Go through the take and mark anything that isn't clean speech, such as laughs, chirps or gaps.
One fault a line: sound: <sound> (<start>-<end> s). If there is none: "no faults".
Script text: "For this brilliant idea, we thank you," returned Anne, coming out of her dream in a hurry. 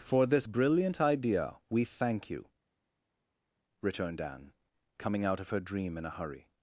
no faults